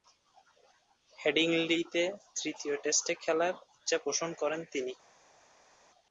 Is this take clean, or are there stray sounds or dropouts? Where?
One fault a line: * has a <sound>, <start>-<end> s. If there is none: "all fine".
all fine